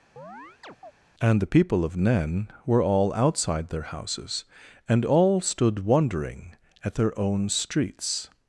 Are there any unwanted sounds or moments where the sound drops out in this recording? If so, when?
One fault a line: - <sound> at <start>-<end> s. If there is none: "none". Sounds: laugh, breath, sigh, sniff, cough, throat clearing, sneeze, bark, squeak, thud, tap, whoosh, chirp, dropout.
- chirp at 0.2-0.9 s